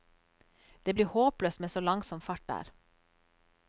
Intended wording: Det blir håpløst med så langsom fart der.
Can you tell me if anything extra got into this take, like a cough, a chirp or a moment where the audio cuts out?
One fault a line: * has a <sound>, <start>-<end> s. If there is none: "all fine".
all fine